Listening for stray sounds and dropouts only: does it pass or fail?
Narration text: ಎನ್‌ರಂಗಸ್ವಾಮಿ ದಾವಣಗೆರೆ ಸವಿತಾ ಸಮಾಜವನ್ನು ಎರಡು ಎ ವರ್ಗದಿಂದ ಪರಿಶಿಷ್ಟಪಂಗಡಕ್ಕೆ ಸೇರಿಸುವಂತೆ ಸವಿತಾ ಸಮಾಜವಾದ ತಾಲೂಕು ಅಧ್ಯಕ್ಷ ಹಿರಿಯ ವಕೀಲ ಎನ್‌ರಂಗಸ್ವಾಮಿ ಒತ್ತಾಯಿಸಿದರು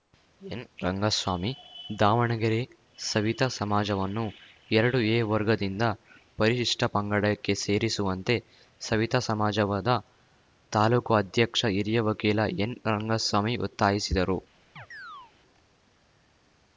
fail